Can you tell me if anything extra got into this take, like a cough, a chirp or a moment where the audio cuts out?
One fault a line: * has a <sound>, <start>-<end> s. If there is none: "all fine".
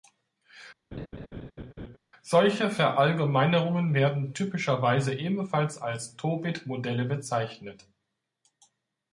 * has a laugh, 0.9-2.0 s